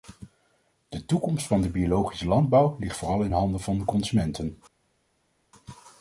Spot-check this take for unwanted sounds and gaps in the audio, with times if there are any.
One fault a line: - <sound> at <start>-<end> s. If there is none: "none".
none